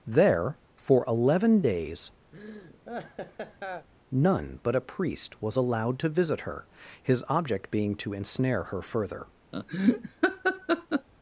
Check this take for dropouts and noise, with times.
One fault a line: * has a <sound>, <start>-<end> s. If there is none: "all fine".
* has a laugh, 2.3-3.9 s
* has a laugh, 9.5-11.1 s